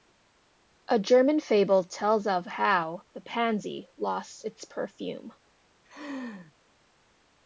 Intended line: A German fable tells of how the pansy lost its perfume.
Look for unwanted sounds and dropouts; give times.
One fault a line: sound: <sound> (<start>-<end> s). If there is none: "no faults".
sound: laugh (5.8-6.5 s)